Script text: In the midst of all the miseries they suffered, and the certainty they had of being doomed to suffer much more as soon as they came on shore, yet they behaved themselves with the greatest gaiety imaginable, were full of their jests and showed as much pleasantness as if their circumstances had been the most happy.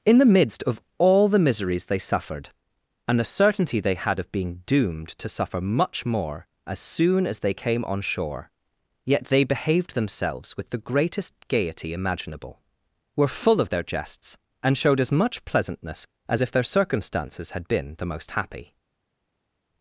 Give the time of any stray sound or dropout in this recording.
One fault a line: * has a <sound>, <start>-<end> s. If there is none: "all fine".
all fine